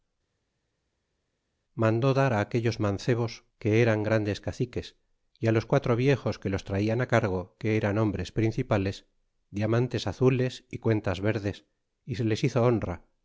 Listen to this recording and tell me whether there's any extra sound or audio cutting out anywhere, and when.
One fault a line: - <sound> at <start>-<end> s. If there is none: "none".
none